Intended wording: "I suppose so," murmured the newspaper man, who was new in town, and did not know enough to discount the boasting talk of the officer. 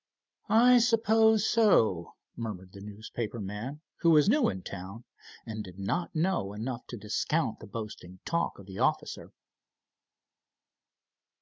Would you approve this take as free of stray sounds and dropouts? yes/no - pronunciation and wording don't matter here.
yes